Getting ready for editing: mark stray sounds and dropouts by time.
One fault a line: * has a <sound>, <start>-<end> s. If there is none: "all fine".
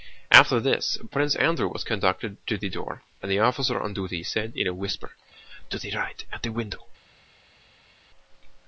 all fine